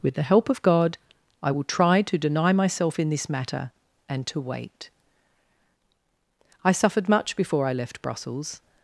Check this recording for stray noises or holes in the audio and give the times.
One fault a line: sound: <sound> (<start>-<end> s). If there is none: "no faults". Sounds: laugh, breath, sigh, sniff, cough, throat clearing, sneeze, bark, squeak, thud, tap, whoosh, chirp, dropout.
no faults